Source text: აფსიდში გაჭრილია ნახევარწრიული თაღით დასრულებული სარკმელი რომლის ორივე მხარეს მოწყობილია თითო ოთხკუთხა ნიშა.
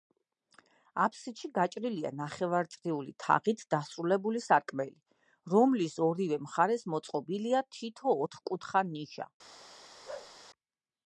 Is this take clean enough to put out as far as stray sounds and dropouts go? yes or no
no